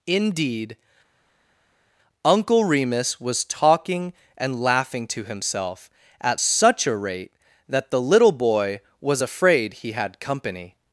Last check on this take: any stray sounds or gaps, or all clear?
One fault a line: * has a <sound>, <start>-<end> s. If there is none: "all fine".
all fine